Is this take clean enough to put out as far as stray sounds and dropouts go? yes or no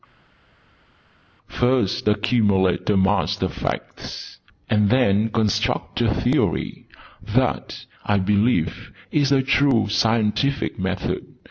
yes